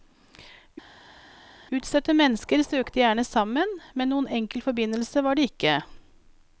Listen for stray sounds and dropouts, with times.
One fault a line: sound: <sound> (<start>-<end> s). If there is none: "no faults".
no faults